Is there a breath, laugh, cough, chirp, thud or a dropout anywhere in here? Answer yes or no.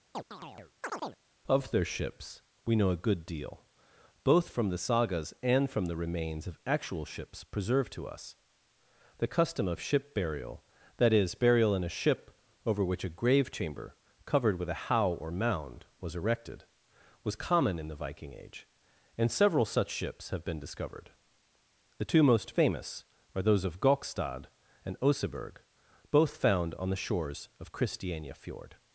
yes